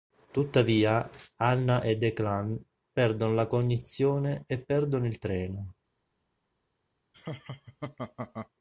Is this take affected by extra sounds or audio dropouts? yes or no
yes